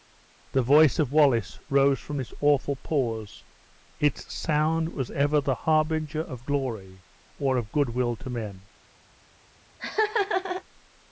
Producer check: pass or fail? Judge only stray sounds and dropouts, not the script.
fail